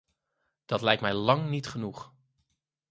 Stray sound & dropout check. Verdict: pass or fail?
pass